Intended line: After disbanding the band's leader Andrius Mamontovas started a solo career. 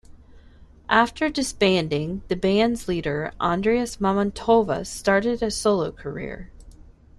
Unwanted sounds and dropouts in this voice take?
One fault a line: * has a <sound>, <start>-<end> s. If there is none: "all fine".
all fine